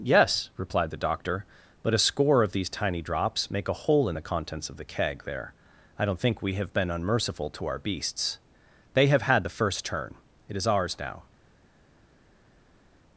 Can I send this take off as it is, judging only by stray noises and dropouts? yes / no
yes